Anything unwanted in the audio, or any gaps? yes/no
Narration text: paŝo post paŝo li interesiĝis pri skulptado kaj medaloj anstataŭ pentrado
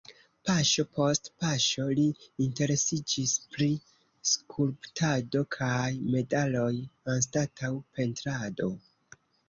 no